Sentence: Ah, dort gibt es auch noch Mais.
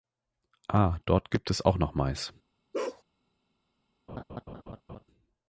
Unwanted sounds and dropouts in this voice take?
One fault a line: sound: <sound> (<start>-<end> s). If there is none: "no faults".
sound: bark (2.7-3.0 s)
sound: laugh (4.1-5.0 s)